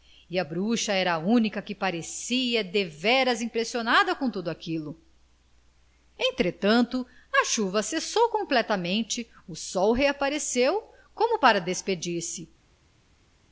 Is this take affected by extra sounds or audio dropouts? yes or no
no